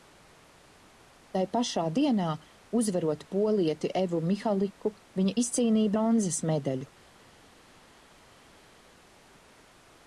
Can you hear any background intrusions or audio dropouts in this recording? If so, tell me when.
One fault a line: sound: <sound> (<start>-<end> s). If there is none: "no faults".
no faults